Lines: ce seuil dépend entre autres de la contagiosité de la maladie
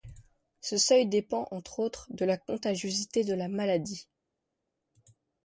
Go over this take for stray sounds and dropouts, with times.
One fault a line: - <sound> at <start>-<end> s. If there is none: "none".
none